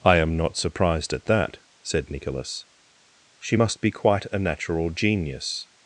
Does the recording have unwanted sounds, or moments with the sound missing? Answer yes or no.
no